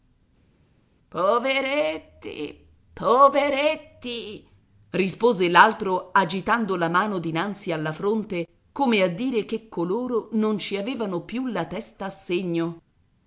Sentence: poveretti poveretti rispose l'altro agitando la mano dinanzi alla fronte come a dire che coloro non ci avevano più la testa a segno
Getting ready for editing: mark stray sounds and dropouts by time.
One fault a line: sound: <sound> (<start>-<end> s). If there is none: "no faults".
no faults